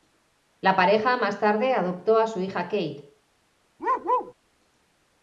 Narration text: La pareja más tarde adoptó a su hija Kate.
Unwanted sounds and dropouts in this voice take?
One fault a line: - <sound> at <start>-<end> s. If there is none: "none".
- bark at 3.8-4.3 s